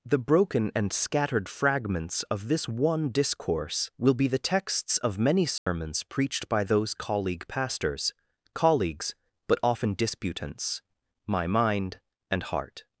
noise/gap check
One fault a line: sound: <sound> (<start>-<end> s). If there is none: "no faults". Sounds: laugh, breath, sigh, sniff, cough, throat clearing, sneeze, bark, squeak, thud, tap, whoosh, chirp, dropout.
sound: dropout (5.6-5.7 s)